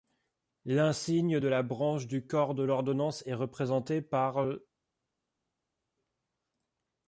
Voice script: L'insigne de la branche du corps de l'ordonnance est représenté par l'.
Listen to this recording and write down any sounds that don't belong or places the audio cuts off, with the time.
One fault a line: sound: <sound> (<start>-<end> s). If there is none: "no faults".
no faults